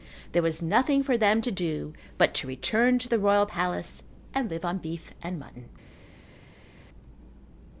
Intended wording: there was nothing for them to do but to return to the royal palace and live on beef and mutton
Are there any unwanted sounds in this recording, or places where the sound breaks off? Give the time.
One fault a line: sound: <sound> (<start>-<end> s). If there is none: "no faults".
no faults